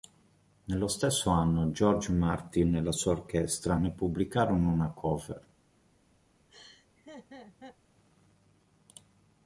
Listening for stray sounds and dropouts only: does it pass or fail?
fail